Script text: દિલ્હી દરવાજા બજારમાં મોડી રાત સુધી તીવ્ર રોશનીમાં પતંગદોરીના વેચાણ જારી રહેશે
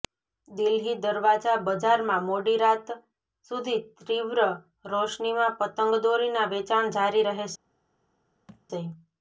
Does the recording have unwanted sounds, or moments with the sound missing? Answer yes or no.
yes